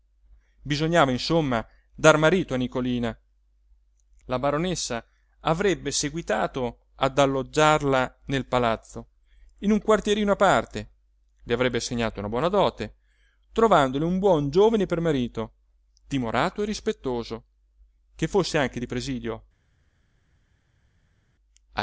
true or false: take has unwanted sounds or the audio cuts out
false